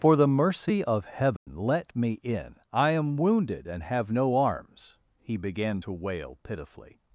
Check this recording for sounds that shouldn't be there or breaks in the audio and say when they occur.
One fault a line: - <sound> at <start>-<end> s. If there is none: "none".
- dropout at 1.4-1.5 s